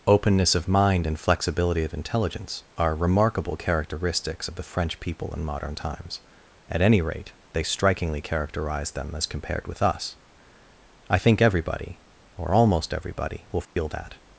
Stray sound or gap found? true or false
true